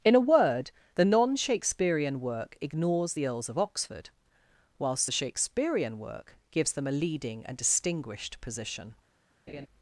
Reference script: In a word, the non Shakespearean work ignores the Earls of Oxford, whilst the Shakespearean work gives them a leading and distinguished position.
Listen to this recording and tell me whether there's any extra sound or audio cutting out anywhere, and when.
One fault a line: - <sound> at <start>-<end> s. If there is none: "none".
- laugh at 9.5-9.7 s